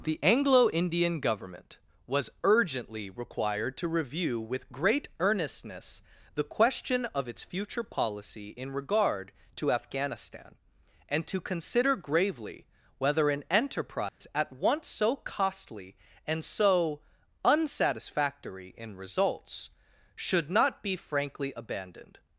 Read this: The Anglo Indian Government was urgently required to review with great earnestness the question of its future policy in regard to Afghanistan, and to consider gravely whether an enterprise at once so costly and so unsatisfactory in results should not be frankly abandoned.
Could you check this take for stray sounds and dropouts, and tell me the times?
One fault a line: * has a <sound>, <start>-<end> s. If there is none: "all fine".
* has a dropout, 14.1-14.2 s